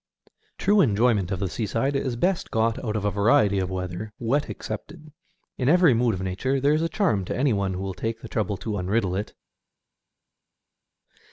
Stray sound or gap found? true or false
false